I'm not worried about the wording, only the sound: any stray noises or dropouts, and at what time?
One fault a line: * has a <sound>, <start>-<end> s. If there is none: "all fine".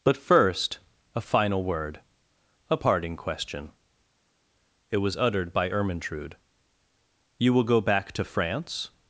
all fine